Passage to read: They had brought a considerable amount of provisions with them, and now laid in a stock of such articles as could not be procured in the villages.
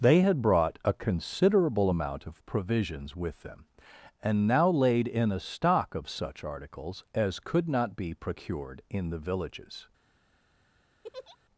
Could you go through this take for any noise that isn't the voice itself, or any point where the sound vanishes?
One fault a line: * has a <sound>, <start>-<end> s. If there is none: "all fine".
* has a laugh, 11.0-11.4 s